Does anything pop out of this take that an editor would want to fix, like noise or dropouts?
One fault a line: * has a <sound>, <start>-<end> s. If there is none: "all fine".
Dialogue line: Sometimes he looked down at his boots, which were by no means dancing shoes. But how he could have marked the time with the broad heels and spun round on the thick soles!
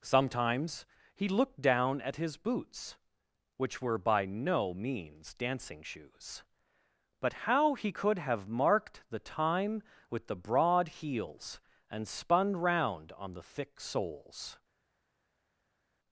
all fine